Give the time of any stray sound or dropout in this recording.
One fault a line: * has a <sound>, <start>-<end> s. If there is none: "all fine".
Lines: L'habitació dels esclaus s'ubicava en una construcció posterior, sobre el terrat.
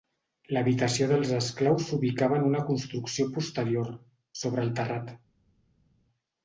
all fine